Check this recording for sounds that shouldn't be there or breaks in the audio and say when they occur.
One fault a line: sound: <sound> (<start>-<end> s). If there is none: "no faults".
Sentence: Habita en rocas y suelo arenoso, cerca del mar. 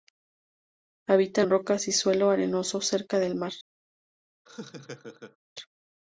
sound: laugh (4.5-5.4 s)